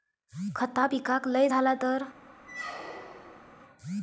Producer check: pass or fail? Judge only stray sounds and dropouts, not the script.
fail